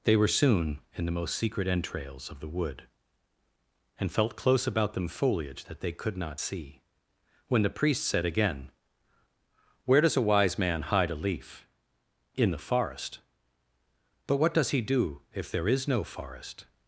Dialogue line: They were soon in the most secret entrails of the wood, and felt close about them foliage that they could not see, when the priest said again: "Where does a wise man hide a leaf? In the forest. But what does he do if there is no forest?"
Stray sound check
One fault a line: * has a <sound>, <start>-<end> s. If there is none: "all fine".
all fine